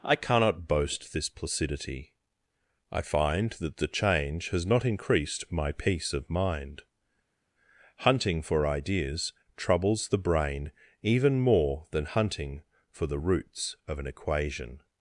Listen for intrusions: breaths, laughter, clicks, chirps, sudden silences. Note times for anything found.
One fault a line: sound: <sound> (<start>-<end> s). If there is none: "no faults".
no faults